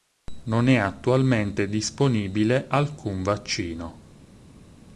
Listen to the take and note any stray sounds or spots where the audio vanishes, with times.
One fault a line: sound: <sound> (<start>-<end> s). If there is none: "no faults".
no faults